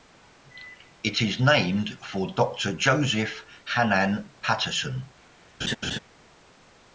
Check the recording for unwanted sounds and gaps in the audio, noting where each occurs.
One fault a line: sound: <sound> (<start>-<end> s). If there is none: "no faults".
sound: laugh (5.6-6.0 s)